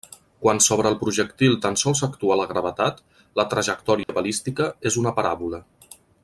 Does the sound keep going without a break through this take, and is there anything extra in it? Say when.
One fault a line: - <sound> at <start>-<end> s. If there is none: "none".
- dropout at 4.0-4.1 s